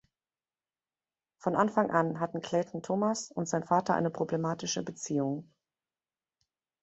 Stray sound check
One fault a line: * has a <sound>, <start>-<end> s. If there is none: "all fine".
all fine